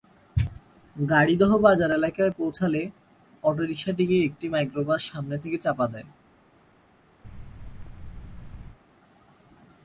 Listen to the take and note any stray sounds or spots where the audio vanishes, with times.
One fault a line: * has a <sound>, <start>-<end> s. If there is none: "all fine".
* has a thud, 7.2-8.8 s